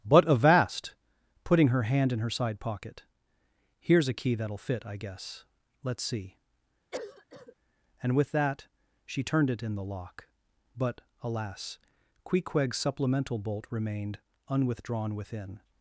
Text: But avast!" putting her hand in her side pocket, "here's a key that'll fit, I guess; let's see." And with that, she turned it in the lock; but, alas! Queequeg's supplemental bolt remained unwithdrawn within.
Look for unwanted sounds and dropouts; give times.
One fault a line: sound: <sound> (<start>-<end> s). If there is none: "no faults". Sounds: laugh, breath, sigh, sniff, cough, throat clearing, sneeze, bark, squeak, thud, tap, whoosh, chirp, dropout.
sound: cough (6.9-7.6 s)